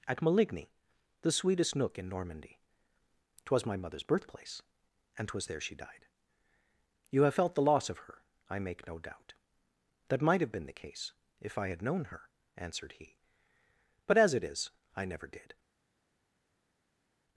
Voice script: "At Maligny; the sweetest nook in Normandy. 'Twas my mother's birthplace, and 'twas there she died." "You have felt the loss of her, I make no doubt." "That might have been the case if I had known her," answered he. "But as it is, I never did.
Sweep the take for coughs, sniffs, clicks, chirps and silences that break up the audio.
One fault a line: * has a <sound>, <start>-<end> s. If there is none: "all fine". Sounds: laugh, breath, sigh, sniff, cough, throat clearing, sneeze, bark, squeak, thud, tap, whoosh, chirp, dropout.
all fine